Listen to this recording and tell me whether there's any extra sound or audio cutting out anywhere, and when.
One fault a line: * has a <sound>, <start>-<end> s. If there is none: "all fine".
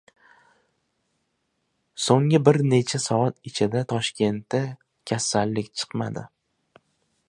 all fine